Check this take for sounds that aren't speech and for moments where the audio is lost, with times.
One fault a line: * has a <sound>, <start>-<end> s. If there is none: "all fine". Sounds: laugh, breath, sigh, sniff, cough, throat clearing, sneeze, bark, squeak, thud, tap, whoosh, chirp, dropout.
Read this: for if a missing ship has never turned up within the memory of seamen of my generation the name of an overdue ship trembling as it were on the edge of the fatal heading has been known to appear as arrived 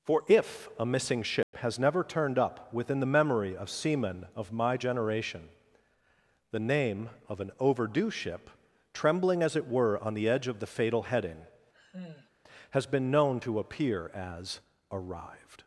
* has a dropout, 1.4-1.5 s
* has a sigh, 11.7-12.3 s